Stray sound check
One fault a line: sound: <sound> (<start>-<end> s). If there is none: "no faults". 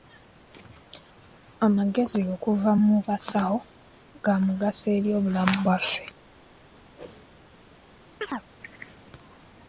sound: whoosh (7.0-7.3 s)
sound: chirp (8.2-8.5 s)